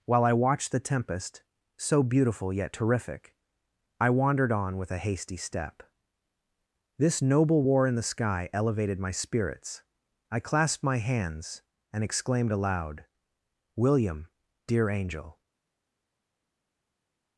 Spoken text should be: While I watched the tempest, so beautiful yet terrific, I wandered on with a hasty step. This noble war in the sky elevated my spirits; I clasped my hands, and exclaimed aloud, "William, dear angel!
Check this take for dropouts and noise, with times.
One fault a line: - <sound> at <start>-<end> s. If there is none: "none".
none